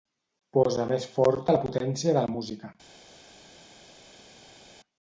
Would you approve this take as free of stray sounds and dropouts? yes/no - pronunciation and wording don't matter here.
yes